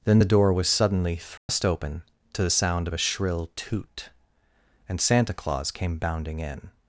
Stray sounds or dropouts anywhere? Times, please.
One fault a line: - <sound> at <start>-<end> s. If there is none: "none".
- dropout at 1.4-1.5 s